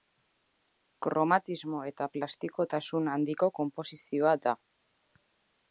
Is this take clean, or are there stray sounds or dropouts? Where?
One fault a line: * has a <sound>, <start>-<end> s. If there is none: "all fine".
all fine